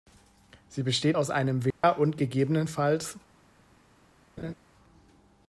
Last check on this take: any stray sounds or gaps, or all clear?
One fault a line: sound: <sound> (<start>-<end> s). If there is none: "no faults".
sound: dropout (1.7-1.8 s)
sound: laugh (4.4-4.5 s)